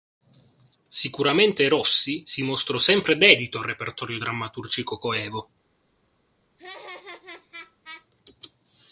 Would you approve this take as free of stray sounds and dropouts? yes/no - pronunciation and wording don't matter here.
no